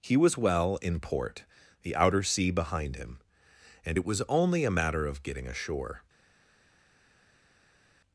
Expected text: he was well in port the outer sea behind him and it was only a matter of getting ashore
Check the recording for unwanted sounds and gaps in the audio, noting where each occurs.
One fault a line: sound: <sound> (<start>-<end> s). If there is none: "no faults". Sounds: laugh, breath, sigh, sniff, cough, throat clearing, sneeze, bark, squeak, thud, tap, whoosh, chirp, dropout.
no faults